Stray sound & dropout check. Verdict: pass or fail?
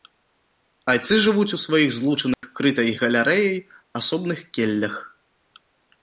fail